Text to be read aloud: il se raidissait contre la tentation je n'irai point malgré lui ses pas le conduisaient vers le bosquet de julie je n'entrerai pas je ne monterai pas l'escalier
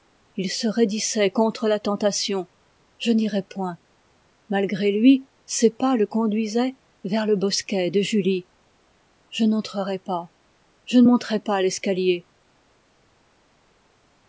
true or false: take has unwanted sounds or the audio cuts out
false